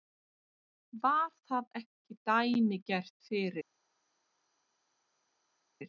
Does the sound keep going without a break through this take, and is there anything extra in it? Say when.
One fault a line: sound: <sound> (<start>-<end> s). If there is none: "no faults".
no faults